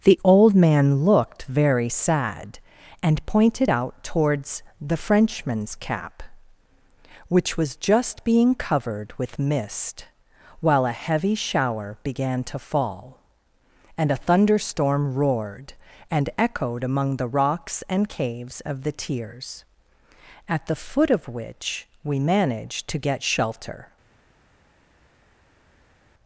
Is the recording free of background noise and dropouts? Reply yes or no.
yes